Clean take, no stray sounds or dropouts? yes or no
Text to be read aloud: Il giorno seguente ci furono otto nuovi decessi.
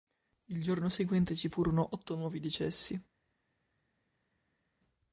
yes